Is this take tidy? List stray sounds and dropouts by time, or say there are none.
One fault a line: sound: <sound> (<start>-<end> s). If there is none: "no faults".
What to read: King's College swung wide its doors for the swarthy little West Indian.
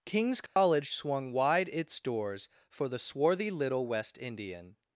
sound: dropout (0.5-0.6 s)